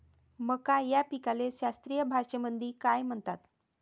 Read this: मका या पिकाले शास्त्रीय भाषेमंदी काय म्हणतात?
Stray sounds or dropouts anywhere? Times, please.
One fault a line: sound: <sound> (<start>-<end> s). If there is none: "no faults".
no faults